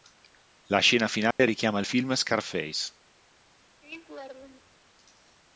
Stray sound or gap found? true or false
true